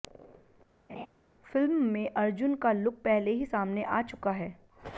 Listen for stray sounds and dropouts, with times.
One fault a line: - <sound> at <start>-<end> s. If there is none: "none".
- laugh at 0.9-1.1 s